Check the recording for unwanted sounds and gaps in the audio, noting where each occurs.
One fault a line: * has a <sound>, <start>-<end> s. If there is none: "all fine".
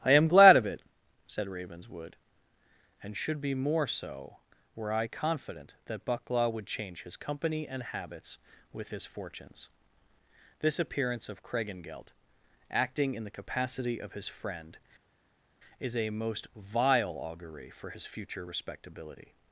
all fine